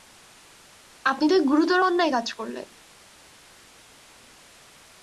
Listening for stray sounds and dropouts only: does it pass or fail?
pass